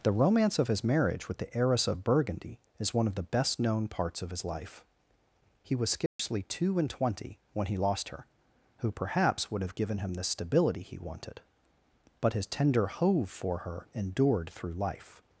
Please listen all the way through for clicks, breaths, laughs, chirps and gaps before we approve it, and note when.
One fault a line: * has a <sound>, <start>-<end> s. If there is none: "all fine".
* has a dropout, 6.1-6.2 s